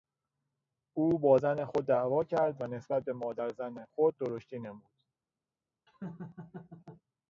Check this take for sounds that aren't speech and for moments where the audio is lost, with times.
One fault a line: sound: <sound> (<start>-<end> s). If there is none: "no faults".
sound: laugh (5.9-7.0 s)